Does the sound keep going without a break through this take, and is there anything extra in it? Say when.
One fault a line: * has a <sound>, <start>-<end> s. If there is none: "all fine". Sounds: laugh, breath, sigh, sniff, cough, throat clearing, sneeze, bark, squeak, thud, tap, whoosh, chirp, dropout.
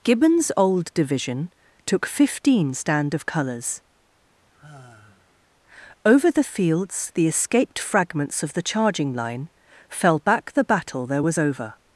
* has a sigh, 4.4-5.5 s